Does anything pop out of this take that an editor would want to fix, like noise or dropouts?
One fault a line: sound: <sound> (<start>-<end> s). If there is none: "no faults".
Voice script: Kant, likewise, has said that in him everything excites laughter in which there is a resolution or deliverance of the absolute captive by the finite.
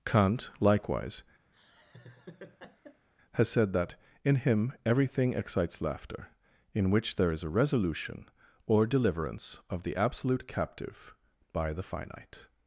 sound: laugh (1.5-3.1 s)